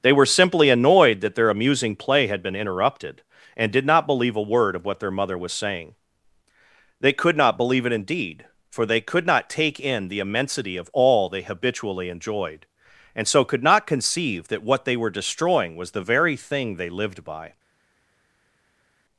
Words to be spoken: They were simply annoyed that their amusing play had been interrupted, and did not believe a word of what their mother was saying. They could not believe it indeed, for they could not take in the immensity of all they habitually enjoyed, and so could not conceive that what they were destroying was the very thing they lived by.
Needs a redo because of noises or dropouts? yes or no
no